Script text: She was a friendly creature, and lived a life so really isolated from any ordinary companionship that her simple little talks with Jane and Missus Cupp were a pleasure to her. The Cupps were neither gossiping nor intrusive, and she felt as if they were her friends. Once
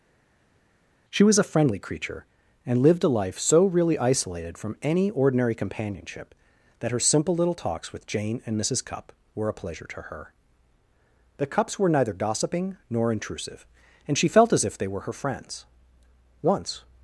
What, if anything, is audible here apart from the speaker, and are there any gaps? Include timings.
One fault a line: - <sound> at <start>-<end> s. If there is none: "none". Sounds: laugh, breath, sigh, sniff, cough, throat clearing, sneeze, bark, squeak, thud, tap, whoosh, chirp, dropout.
none